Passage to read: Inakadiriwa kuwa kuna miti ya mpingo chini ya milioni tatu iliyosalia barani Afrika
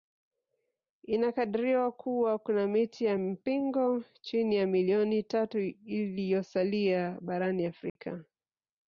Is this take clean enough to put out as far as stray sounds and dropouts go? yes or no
no